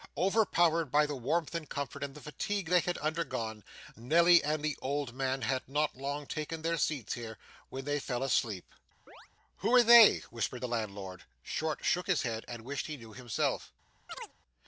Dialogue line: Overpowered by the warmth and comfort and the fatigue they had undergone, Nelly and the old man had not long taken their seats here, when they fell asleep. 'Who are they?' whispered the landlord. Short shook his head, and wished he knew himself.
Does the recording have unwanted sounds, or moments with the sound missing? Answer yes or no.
yes